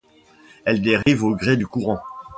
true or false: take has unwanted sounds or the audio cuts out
true